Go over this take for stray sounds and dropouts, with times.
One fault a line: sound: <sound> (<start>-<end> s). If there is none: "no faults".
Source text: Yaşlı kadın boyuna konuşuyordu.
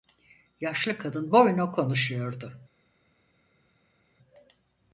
no faults